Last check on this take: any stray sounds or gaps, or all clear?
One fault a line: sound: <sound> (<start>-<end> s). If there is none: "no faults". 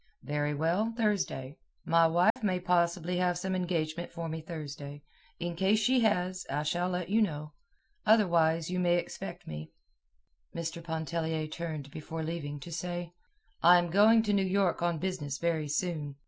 sound: dropout (2.3-2.4 s)